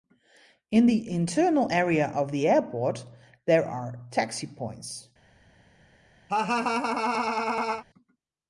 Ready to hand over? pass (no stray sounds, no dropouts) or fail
fail